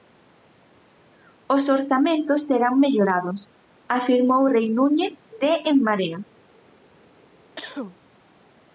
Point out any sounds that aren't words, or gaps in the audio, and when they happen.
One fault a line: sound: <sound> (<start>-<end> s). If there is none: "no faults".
sound: cough (7.6-8.0 s)